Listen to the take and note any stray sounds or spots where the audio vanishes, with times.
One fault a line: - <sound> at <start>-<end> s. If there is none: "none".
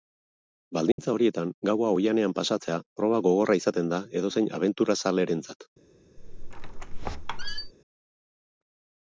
- dropout at 0.9-1.0 s
- squeak at 6.2-7.7 s